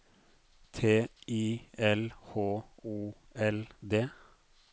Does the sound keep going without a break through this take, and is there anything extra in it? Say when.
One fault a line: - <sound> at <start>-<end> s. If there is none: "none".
none